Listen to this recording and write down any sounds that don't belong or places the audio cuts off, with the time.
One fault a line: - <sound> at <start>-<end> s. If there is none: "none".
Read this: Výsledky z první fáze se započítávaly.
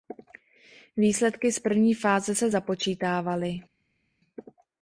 none